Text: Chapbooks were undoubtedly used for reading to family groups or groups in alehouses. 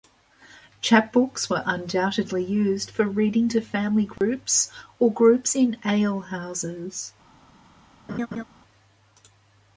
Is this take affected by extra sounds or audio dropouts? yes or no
yes